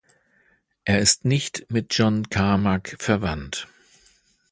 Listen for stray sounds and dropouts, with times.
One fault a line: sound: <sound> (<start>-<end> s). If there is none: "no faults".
no faults